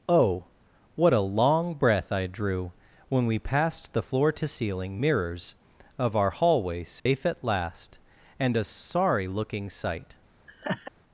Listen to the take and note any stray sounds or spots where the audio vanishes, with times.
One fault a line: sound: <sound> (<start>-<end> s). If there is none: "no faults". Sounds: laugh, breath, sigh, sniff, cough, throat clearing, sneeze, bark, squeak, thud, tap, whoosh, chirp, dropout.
sound: dropout (7.0-7.1 s)
sound: laugh (10.5-10.9 s)